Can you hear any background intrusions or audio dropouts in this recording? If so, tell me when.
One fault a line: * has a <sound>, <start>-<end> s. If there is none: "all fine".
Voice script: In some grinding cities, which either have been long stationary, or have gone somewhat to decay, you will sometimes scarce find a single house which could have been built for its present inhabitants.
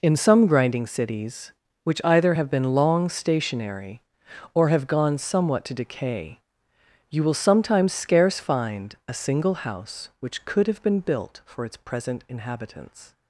all fine